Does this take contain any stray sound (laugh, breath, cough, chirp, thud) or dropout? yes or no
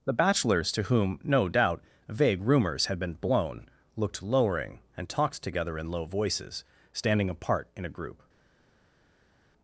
no